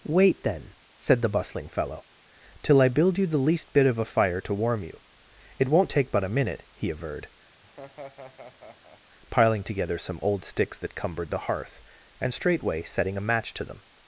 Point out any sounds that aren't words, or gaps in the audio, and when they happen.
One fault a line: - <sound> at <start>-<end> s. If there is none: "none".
- laugh at 7.6-9.0 s